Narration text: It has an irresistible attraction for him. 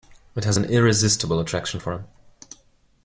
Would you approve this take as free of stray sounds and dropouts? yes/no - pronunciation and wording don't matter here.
yes